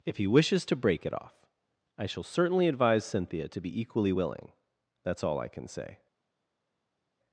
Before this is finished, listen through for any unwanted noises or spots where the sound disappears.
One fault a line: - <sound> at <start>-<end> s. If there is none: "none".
none